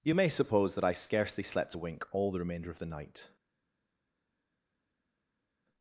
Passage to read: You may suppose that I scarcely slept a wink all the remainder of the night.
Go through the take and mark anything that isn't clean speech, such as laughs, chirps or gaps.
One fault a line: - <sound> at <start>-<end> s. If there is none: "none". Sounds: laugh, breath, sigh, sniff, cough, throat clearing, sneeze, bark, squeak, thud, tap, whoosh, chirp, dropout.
none